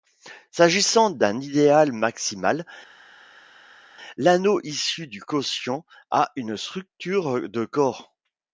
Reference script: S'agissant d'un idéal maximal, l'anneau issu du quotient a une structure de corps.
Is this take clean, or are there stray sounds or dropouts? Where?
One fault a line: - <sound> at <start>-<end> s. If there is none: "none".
none